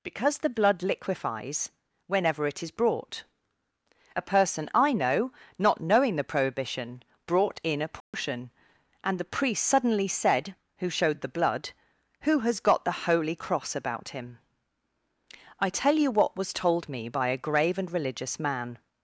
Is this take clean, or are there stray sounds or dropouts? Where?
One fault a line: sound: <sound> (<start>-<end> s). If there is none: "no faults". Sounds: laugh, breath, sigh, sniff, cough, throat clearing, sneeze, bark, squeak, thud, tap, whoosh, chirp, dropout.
sound: dropout (8.0-8.1 s)